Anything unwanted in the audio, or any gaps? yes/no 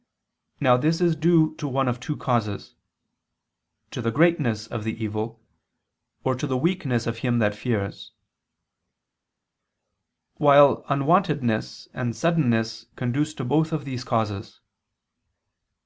no